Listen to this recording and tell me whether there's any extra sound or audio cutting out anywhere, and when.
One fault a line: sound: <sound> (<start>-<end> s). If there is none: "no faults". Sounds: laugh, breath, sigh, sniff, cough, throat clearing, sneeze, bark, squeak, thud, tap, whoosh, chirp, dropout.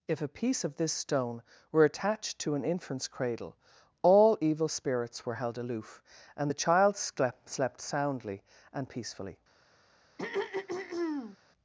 sound: throat clearing (10.2-11.4 s)